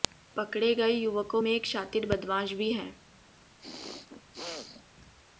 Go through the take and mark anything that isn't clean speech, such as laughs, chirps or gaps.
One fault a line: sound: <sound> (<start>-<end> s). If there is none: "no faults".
sound: throat clearing (3.6-4.8 s)